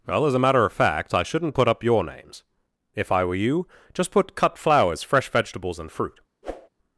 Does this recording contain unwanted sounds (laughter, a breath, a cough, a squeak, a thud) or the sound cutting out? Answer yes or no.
yes